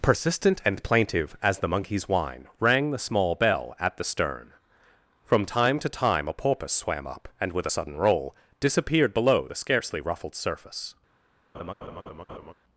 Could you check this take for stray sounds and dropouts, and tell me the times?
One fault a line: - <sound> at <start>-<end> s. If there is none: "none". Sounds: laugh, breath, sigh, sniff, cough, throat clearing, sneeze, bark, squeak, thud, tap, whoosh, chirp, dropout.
- laugh at 11.5-12.5 s